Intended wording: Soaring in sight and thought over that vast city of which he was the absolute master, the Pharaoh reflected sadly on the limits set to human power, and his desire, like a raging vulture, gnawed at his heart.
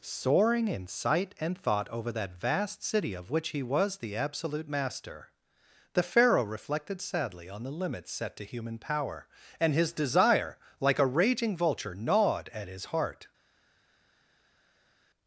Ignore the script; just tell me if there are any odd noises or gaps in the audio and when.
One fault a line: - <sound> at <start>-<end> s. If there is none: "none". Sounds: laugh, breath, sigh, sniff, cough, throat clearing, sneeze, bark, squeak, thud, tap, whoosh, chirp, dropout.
none